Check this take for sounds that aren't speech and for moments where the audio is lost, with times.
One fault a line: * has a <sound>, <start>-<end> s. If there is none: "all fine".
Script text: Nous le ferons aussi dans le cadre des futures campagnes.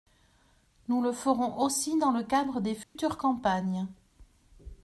* has a dropout, 2.8-3.0 s